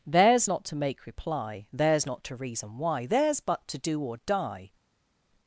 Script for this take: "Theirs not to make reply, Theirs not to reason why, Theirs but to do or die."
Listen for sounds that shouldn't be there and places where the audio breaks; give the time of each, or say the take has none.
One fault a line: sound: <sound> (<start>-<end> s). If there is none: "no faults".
no faults